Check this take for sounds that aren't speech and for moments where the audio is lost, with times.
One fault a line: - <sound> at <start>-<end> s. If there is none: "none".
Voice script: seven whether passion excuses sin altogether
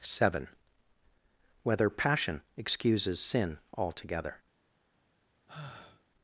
- sigh at 5.5-6.0 s